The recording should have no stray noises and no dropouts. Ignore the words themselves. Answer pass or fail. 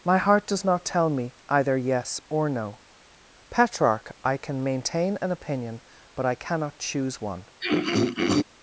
fail